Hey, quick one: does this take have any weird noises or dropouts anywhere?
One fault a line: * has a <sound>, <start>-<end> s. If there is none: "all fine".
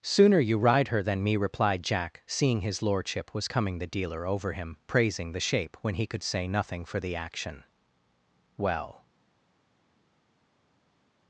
all fine